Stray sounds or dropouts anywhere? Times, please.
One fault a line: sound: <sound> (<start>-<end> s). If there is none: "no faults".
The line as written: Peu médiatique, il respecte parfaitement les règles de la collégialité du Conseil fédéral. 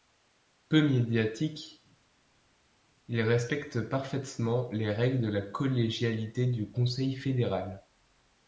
no faults